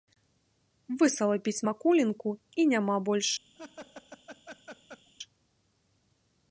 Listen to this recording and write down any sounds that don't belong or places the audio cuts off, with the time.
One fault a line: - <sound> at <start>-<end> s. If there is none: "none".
- laugh at 3.5-5.1 s